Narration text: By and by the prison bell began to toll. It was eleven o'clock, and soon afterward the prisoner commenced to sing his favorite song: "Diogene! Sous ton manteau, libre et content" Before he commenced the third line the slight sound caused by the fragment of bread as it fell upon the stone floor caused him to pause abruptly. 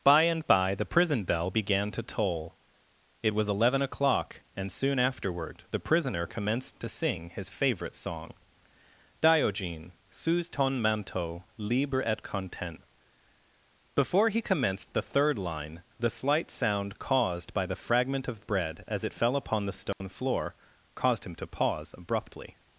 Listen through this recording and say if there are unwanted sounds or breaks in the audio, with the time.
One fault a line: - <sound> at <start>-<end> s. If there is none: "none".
- dropout at 19.9-20.0 s